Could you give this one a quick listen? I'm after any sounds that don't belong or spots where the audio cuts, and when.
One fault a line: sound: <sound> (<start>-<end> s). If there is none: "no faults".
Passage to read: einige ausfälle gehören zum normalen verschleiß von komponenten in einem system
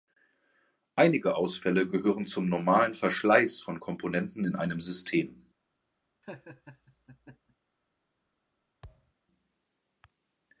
sound: laugh (6.2-7.6 s)
sound: thud (8.8-9.1 s)